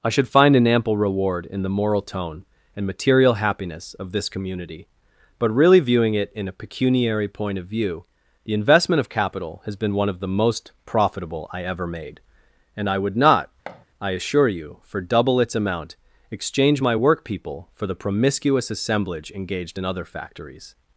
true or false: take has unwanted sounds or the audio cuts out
true